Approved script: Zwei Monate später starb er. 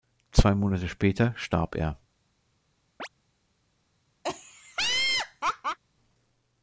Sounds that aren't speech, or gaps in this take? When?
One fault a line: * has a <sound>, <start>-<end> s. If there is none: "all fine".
* has a chirp, 3.0-3.1 s
* has a laugh, 4.2-5.8 s